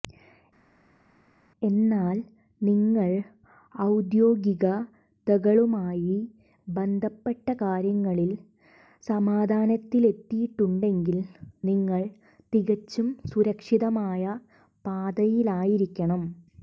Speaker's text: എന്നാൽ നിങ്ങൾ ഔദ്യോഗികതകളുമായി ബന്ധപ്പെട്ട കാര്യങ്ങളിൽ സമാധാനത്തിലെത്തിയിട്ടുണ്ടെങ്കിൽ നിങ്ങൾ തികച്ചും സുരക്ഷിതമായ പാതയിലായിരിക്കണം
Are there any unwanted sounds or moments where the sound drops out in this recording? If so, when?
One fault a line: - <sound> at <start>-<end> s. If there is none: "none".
none